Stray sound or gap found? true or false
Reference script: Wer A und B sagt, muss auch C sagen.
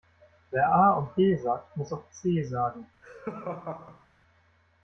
true